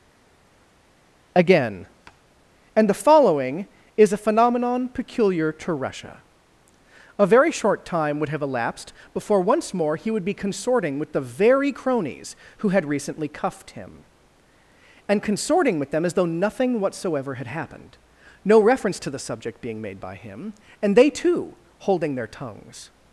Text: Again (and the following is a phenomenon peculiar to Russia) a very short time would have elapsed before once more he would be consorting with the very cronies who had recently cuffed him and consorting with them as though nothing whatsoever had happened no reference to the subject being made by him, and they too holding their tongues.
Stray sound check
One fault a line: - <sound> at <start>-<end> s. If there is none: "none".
none